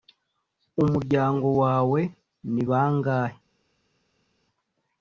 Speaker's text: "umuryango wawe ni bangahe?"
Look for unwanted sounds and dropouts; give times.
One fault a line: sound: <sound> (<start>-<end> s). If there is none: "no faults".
no faults